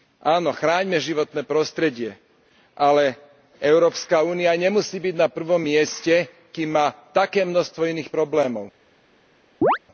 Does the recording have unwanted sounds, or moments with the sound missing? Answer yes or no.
yes